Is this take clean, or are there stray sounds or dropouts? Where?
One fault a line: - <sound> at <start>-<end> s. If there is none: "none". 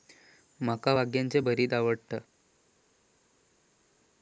none